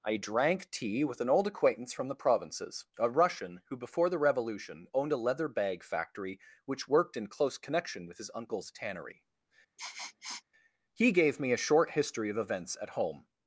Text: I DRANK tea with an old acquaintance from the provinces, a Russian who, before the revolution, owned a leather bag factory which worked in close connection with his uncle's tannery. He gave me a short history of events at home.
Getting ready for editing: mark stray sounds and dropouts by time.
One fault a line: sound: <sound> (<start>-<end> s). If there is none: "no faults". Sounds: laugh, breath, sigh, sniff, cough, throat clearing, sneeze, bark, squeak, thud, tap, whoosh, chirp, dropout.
sound: sniff (9.8-10.4 s)